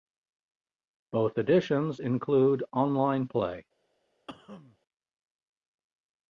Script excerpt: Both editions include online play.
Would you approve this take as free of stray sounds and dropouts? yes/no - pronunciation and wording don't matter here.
no